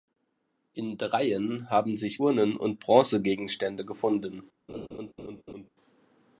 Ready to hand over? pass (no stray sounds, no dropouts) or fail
fail